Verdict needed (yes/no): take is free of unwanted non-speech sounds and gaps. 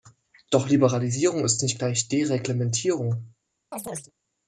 no